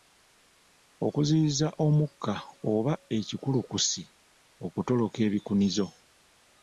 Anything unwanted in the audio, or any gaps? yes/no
no